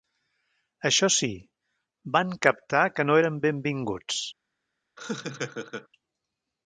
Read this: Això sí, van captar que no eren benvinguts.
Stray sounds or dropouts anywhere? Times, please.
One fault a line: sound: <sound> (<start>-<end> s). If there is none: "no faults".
sound: laugh (5.0-5.9 s)